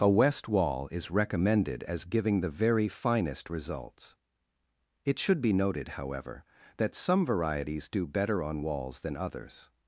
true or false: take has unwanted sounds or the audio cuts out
false